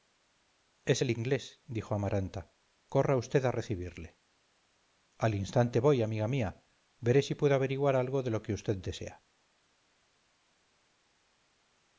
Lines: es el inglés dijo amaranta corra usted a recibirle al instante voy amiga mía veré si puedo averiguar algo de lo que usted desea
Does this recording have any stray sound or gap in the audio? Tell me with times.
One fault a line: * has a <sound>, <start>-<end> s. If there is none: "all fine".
all fine